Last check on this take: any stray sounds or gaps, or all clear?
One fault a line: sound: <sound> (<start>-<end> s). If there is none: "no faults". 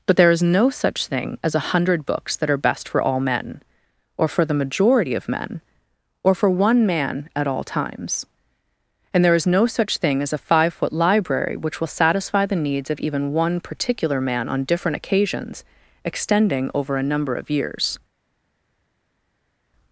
no faults